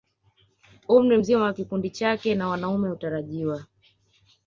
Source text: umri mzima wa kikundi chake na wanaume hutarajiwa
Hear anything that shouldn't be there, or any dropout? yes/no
no